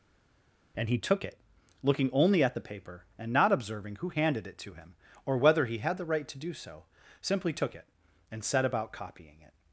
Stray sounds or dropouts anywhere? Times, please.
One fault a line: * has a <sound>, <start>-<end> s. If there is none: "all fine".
all fine